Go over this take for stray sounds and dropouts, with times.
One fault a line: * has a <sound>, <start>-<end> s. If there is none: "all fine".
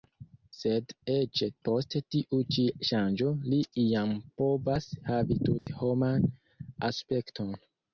* has a dropout, 5.6-5.7 s